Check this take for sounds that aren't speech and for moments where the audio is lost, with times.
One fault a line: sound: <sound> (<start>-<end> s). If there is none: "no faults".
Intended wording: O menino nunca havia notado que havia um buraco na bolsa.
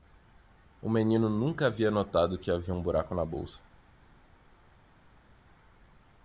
no faults